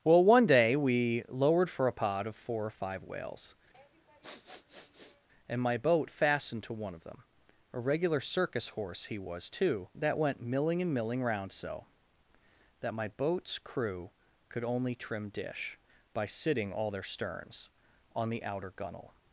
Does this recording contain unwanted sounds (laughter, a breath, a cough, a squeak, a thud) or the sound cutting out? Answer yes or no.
yes